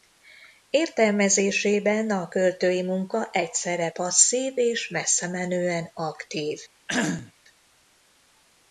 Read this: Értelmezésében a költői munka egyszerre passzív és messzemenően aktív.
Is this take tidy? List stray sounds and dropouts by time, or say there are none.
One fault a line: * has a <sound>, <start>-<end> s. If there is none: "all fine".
* has a cough, 6.9-7.3 s